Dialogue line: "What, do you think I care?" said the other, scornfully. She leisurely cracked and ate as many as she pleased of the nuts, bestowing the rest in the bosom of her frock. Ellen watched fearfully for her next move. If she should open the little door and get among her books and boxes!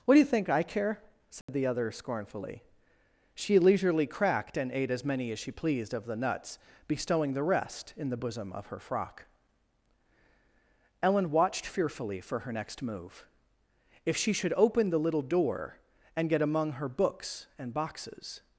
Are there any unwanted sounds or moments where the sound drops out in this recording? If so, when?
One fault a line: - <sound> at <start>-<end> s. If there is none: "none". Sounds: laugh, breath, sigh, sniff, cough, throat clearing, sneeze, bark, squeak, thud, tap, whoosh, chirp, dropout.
- dropout at 1.4-1.5 s